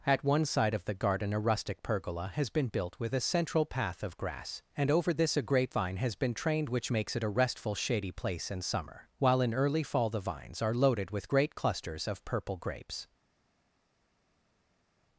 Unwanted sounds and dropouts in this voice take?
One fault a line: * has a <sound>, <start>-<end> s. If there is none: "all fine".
all fine